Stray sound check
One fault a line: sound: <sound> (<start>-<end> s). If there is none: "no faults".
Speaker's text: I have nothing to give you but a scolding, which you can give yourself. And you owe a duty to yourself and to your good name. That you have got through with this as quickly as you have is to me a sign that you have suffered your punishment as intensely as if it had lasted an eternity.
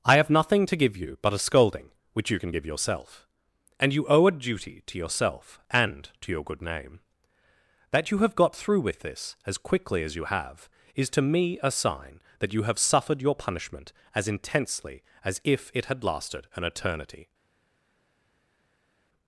no faults